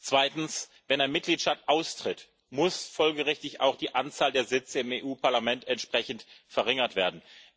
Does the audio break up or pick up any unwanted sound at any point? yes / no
no